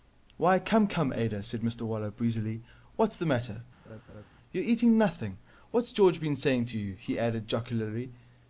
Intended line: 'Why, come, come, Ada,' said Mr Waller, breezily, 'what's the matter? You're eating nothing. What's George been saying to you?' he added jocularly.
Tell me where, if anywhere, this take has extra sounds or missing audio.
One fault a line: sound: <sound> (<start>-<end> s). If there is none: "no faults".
sound: laugh (3.9-4.3 s)